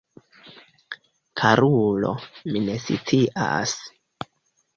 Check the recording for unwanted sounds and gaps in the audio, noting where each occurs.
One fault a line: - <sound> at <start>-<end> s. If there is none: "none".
none